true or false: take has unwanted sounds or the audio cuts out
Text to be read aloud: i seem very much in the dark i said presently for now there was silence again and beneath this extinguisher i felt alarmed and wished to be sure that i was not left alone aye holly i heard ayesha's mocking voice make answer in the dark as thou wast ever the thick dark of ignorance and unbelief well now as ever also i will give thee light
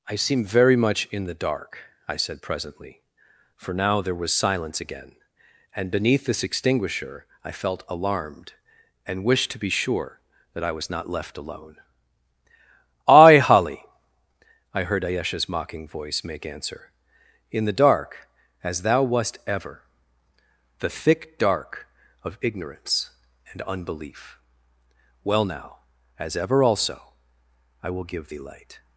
false